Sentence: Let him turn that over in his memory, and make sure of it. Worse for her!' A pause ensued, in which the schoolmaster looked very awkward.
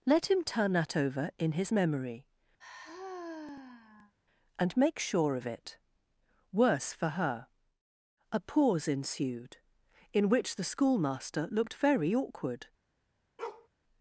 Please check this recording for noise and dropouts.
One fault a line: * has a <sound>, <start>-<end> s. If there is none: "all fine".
* has a sigh, 2.6-4.1 s
* has a bark, 13.4-13.7 s